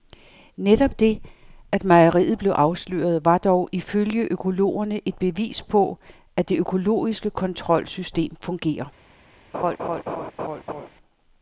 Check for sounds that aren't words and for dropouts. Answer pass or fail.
fail